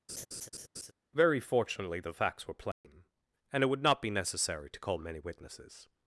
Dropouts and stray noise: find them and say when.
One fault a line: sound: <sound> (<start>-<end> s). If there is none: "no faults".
sound: laugh (0.1-0.9 s)
sound: dropout (2.7-2.8 s)